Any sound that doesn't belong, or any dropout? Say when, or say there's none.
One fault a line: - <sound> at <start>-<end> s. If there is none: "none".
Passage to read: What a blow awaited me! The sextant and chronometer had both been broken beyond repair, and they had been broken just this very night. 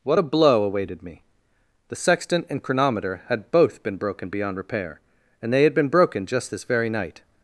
none